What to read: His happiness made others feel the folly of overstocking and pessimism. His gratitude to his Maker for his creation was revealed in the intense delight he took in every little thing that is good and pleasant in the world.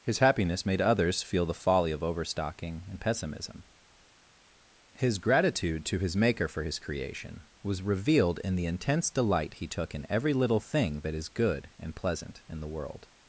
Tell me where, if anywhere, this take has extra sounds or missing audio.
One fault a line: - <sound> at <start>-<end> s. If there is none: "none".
none